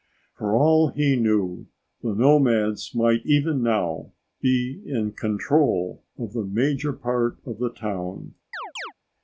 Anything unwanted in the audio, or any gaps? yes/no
yes